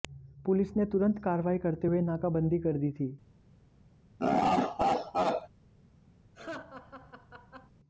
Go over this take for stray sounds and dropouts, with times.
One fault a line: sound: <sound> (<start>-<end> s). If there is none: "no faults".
sound: laugh (4.2-5.5 s)
sound: laugh (6.3-7.7 s)